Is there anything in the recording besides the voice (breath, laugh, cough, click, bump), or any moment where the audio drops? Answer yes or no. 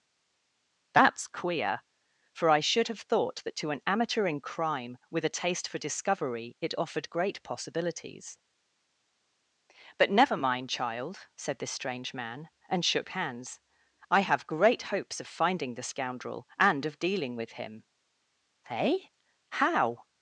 no